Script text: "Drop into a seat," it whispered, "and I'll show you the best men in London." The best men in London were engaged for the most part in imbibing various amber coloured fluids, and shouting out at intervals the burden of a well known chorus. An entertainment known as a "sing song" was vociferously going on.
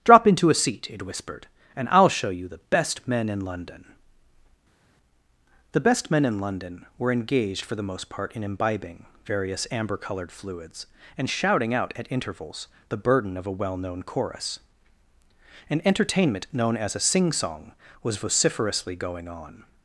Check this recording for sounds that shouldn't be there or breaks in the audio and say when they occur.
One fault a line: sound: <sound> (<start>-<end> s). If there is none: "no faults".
no faults